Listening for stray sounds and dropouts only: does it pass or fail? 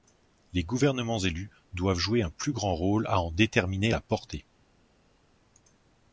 pass